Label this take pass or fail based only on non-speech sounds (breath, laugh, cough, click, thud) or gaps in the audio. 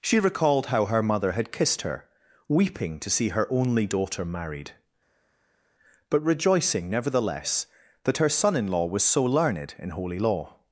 pass